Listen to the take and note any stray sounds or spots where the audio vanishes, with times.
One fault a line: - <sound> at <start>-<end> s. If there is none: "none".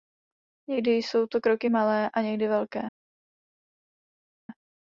none